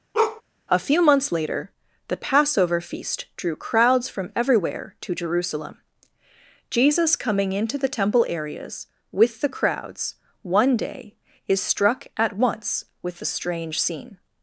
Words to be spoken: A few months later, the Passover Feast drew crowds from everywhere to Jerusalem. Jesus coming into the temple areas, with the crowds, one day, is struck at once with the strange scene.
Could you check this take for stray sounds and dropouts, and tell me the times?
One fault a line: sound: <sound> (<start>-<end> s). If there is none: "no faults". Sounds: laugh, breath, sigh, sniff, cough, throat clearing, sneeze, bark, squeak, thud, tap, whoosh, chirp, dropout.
sound: bark (0.1-0.4 s)